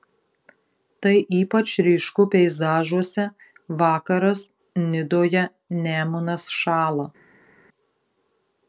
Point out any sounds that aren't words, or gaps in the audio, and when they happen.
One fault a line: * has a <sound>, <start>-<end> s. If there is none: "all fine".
all fine